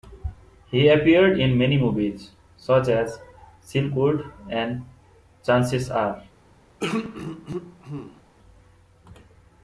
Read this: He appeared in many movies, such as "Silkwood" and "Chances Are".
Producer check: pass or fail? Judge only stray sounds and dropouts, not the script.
fail